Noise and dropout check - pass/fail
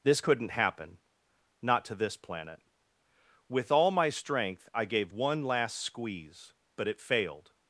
pass